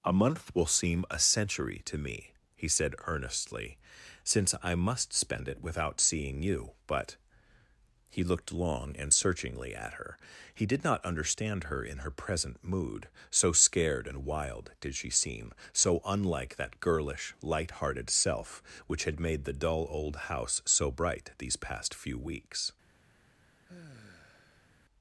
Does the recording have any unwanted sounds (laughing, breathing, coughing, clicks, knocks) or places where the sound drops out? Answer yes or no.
yes